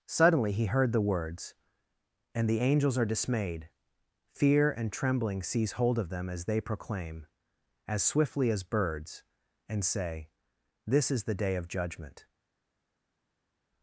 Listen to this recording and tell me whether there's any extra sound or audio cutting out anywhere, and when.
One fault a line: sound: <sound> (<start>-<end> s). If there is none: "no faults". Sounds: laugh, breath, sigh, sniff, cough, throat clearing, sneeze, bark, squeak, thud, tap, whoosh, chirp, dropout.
no faults